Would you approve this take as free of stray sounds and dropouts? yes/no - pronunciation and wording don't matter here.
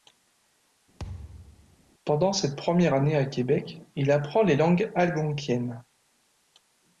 no